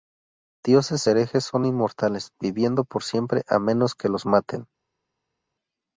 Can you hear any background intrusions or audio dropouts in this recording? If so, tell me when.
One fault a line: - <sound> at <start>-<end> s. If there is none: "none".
none